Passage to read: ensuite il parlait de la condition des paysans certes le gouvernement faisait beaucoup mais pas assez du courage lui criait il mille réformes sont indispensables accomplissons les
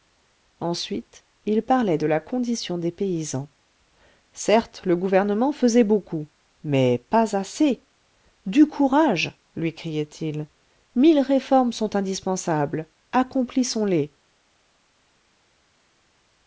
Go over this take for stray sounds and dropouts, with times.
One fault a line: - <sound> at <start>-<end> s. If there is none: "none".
none